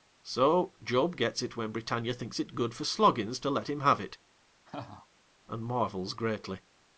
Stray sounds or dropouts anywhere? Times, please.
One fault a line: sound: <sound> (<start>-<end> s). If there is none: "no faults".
sound: laugh (4.6-5.1 s)